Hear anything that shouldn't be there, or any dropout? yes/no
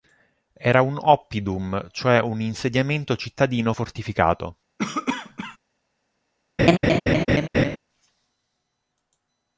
yes